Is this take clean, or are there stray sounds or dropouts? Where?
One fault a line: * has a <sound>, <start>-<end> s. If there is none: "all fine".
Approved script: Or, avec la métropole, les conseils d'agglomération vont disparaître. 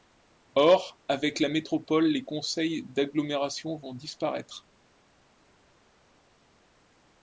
all fine